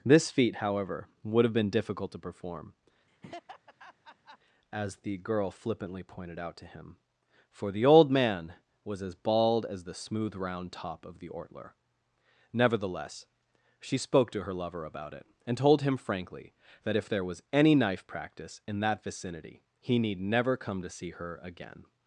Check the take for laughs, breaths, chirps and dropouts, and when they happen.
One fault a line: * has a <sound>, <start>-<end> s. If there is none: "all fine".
* has a laugh, 3.1-4.4 s